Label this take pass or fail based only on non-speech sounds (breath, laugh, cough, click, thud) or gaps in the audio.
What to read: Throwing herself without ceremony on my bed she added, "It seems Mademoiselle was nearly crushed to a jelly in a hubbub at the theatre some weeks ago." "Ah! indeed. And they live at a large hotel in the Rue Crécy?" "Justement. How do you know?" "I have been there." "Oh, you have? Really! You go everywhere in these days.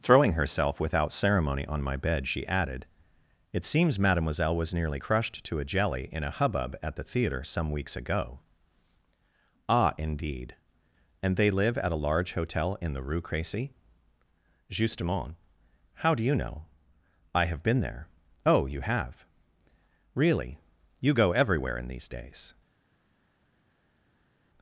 pass